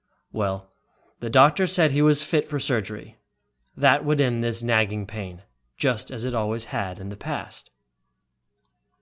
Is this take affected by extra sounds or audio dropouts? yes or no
no